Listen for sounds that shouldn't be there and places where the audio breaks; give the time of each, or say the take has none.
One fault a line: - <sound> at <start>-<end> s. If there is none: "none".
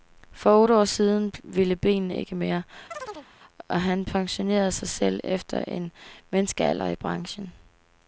- chirp at 2.9-3.3 s